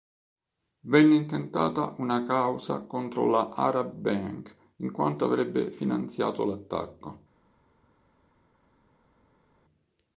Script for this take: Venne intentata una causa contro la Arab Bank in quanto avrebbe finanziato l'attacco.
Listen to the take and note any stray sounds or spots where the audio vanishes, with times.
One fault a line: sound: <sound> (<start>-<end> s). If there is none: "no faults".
no faults